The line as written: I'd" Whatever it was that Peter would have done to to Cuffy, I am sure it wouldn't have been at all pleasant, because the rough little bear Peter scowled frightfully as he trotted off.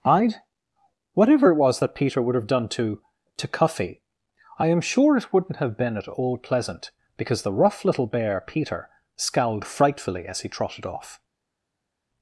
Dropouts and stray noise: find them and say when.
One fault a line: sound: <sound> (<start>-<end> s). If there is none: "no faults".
no faults